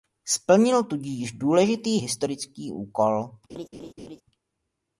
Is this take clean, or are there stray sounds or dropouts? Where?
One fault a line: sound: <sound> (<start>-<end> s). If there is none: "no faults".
sound: laugh (3.5-4.2 s)